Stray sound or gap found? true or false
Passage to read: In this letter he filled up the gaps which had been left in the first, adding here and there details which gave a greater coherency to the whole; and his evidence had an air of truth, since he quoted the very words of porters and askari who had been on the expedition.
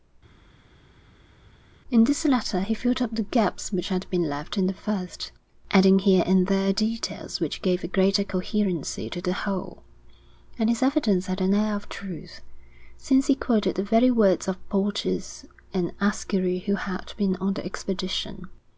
false